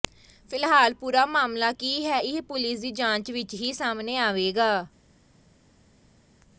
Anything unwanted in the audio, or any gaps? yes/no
no